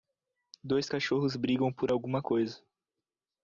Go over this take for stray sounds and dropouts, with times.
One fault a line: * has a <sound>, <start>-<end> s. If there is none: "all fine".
all fine